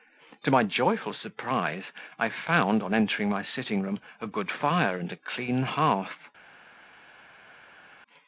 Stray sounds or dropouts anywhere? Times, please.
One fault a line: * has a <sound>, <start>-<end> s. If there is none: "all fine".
all fine